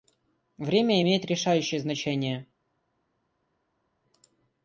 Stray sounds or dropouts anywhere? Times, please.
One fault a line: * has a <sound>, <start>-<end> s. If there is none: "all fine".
all fine